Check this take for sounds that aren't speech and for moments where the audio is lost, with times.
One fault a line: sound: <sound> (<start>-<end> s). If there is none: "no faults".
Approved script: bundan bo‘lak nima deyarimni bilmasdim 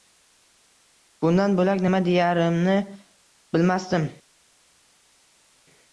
no faults